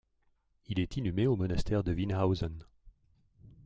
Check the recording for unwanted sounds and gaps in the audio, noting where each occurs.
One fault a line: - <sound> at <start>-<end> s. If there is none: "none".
none